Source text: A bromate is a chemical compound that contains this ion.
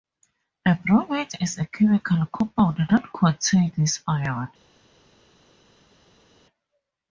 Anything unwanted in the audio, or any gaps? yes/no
no